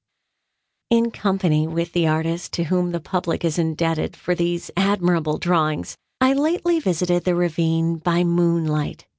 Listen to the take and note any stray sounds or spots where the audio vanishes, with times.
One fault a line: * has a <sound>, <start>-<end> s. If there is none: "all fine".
all fine